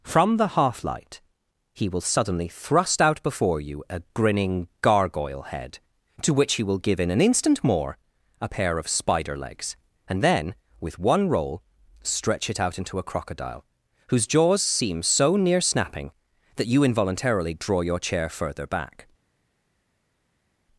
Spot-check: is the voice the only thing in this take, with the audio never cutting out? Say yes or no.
yes